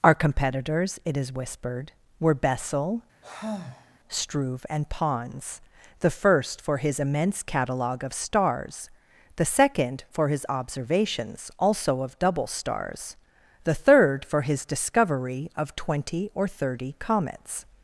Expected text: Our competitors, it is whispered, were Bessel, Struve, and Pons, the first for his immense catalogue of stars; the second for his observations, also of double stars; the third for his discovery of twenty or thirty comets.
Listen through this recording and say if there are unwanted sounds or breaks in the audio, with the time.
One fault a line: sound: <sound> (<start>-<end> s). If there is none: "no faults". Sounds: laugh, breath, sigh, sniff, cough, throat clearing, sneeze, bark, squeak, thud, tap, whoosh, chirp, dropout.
sound: sigh (3.2-4.0 s)